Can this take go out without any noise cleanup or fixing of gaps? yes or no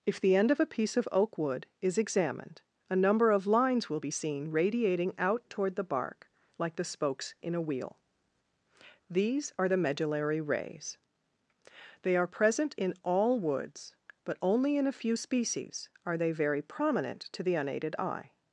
yes